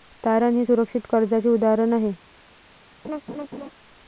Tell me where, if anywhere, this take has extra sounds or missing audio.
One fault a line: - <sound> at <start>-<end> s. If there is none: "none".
- laugh at 3.0-3.7 s